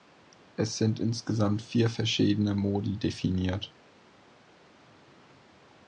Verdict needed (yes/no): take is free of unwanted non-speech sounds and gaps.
yes